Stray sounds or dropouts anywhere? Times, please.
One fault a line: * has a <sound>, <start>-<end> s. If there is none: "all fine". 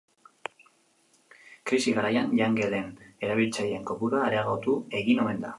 all fine